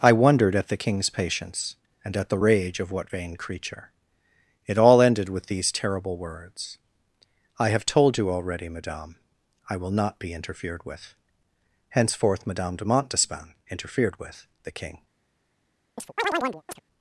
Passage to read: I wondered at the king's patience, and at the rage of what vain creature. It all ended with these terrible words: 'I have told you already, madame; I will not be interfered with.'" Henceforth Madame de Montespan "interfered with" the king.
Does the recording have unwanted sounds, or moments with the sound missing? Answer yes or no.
yes